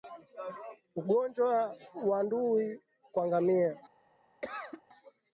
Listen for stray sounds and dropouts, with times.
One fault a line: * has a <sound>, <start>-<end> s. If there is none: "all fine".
* has a cough, 4.4-4.8 s